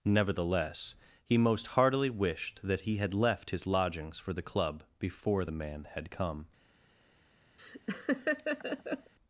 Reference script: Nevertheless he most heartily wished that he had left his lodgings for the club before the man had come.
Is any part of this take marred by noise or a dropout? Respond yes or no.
yes